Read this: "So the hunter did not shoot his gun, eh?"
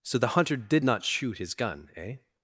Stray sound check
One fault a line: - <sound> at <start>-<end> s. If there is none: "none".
none